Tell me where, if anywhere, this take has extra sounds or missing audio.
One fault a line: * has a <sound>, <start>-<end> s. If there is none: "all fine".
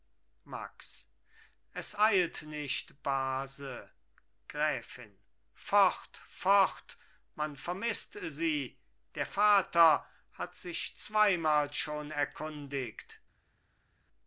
all fine